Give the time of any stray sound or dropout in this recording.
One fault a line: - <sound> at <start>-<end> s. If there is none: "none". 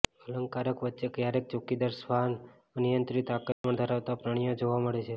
- dropout at 3.5-3.6 s